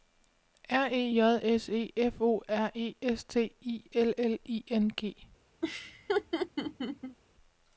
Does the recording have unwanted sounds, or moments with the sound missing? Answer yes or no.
yes